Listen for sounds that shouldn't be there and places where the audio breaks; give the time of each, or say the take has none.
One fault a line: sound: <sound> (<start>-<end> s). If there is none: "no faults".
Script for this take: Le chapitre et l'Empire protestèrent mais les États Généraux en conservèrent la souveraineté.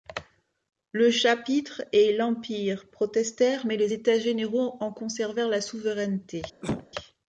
sound: cough (6.6-6.9 s)